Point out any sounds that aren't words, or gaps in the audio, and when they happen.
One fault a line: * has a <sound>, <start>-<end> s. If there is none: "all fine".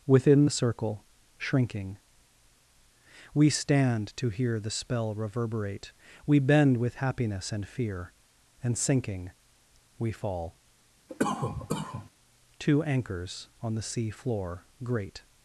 * has a cough, 11.1-12.1 s